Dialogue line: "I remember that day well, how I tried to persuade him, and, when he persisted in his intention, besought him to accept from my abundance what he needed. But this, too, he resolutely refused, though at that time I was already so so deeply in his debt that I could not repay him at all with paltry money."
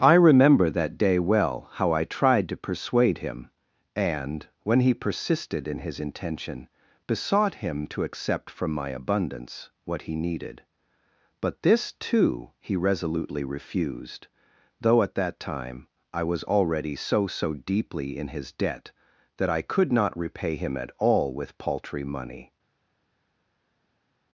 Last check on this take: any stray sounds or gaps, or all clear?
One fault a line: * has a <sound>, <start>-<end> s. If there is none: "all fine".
all fine